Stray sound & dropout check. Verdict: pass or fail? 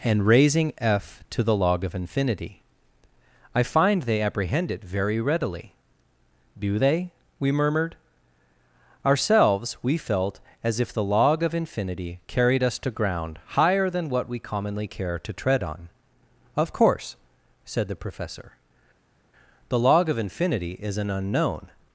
pass